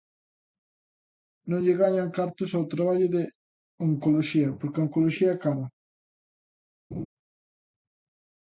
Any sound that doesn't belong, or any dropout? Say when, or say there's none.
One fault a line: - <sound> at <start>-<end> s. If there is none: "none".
- laugh at 6.9-7.1 s